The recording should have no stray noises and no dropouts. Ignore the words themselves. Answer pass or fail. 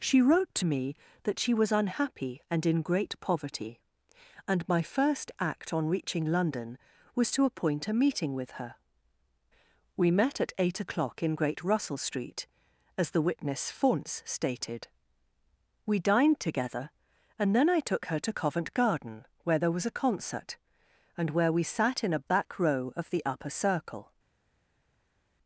pass